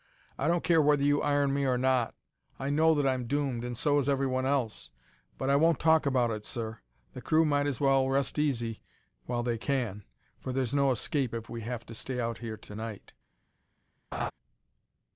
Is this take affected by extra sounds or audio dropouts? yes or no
yes